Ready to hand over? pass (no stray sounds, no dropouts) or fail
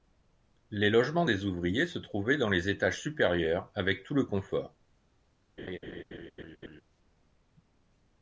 fail